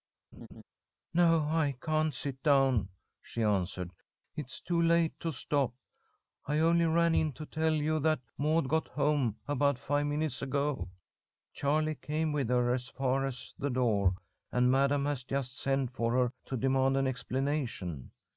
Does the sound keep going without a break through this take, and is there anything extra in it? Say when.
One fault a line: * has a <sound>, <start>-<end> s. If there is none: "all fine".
* has a laugh, 0.3-0.6 s